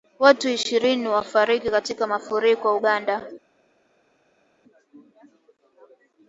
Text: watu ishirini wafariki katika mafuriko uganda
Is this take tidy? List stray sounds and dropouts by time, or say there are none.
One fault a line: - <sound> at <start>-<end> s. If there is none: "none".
none